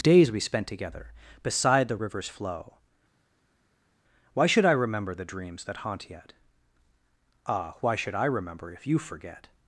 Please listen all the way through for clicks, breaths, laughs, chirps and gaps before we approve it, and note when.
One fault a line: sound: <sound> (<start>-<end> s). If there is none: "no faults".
no faults